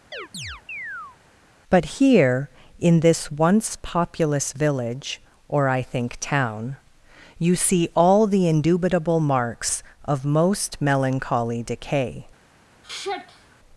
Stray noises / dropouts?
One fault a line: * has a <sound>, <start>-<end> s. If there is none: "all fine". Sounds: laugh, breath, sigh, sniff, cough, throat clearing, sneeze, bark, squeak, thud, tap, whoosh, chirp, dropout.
* has a chirp, 0.1-1.2 s
* has a sigh, 12.8-13.6 s